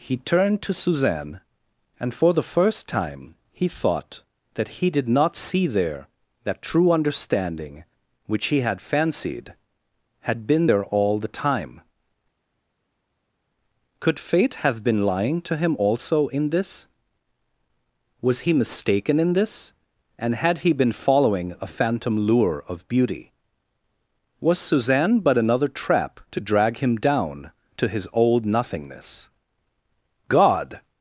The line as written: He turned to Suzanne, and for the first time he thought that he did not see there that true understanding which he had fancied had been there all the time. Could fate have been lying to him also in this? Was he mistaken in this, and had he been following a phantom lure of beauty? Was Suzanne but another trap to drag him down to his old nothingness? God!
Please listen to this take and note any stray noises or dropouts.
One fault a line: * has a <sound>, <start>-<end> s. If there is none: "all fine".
all fine